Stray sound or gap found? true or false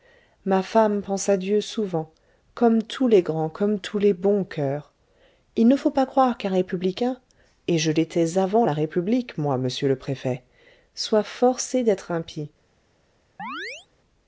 true